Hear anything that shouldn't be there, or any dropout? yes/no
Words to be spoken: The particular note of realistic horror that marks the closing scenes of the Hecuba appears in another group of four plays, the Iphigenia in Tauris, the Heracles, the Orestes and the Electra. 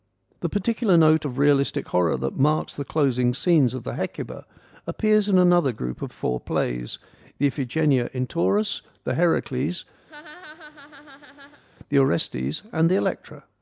yes